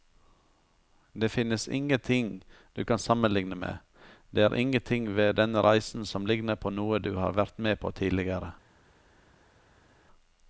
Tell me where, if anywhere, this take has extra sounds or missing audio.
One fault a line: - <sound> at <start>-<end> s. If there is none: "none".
none